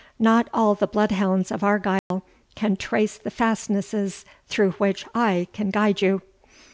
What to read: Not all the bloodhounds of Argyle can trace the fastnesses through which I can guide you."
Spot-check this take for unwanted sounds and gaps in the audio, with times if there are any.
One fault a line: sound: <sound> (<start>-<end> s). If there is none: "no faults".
sound: dropout (2.0-2.1 s)